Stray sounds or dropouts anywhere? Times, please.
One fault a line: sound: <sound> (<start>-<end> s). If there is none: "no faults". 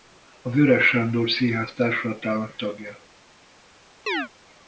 sound: chirp (4.1-4.3 s)